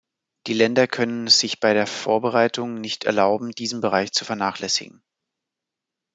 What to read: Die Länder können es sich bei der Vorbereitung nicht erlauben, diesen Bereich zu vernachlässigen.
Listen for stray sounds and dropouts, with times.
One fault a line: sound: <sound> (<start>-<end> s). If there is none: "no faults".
no faults